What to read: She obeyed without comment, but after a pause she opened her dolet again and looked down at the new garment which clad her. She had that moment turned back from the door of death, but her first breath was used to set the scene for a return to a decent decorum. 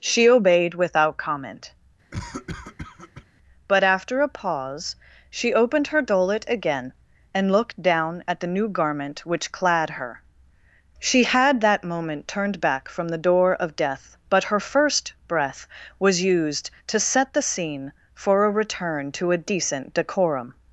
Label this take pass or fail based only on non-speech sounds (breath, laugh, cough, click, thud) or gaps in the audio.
fail